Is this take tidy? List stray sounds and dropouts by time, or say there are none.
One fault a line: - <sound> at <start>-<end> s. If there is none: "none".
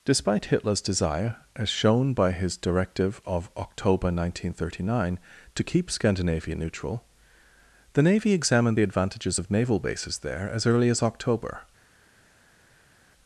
none